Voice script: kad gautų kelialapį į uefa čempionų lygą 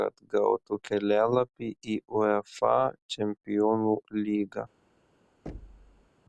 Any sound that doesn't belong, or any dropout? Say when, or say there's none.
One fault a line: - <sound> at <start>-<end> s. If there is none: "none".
- thud at 5.5-6.1 s